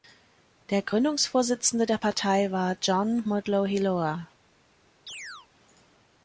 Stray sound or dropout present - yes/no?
yes